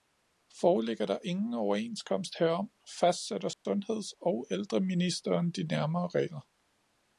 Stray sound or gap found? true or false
true